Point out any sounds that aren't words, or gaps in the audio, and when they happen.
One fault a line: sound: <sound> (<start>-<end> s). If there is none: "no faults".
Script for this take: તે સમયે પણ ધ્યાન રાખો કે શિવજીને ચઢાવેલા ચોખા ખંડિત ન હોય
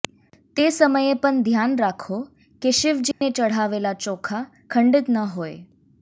sound: dropout (3.1-3.2 s)